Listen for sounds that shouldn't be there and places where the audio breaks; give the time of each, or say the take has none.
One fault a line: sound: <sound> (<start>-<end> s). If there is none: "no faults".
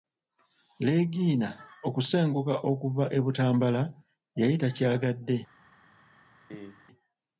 sound: cough (6.5-6.9 s)